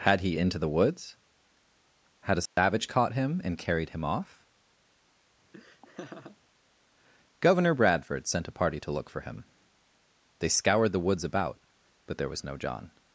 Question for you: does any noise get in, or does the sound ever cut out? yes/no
yes